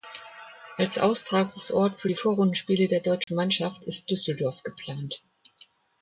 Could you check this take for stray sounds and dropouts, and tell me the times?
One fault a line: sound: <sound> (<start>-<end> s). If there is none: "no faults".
sound: dropout (3.2-3.3 s)